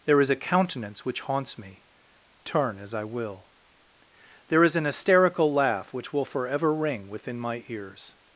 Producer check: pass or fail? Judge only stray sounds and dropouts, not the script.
pass